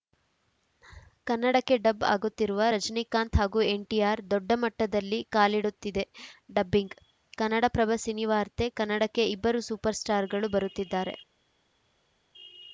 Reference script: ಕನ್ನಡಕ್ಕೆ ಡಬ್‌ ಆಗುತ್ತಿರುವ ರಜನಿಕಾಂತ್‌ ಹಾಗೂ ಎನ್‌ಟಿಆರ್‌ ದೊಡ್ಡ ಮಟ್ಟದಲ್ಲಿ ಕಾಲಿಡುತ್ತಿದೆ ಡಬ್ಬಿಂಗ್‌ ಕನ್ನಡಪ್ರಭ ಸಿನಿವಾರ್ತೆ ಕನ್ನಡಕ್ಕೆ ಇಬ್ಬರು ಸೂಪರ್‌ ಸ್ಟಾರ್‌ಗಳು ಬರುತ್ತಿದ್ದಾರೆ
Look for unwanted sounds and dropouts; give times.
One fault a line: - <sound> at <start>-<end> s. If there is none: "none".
none